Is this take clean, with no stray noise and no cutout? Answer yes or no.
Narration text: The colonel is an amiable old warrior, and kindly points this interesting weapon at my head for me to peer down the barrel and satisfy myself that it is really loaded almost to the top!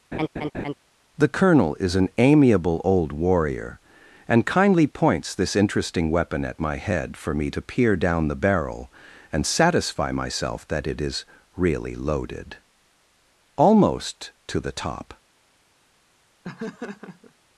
no